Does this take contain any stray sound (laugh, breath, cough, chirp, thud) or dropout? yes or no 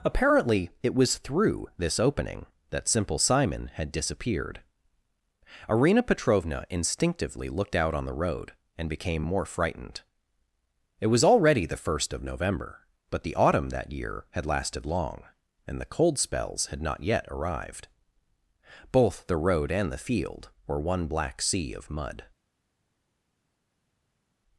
no